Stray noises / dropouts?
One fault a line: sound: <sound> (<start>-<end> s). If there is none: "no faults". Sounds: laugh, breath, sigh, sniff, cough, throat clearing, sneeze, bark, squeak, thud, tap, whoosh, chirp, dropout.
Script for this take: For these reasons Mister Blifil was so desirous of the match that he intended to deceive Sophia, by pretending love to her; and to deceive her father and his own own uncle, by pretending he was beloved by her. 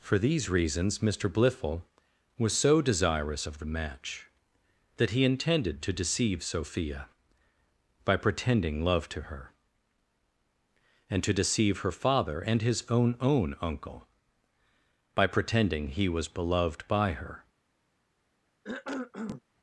sound: cough (18.6-19.4 s)